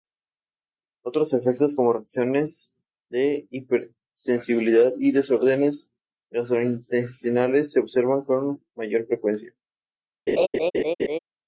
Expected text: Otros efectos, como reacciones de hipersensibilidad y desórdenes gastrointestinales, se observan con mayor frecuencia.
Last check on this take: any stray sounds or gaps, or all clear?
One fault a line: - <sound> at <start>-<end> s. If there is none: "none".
- laugh at 10.3-11.2 s